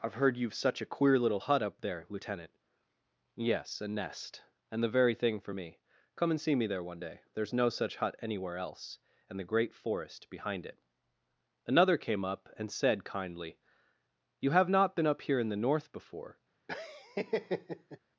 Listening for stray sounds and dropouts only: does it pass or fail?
fail